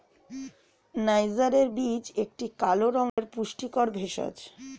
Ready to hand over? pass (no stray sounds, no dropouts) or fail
fail